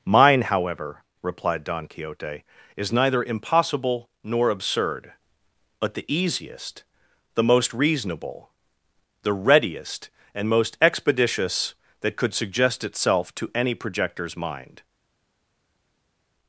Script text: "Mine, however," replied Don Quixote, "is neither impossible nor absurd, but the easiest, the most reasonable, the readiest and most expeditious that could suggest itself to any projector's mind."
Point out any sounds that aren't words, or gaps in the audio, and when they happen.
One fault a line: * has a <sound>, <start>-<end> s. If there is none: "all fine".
all fine